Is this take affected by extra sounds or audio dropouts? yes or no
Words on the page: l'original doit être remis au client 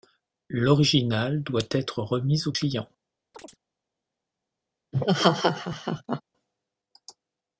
yes